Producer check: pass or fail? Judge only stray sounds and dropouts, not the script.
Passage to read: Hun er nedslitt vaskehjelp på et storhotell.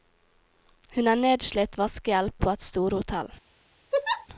fail